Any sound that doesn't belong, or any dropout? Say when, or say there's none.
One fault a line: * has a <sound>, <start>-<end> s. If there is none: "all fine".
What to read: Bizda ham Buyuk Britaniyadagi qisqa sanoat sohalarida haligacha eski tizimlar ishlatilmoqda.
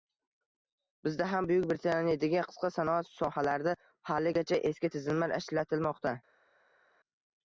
all fine